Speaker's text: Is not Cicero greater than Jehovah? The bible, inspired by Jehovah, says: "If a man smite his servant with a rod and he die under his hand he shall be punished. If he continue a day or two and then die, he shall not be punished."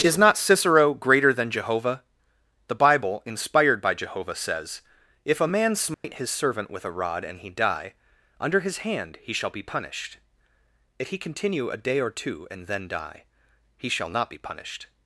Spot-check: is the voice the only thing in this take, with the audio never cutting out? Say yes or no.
no